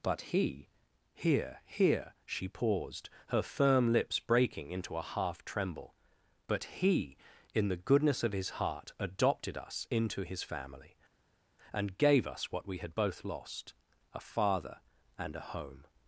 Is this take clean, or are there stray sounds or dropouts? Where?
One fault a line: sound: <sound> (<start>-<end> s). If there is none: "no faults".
no faults